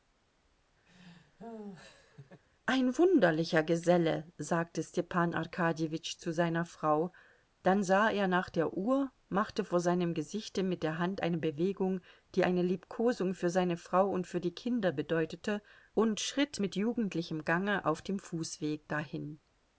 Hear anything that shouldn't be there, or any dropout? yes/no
yes